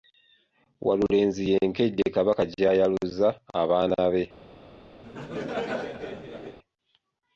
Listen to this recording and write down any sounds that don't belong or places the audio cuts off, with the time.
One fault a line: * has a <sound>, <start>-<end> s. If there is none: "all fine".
* has a laugh, 5.0-6.6 s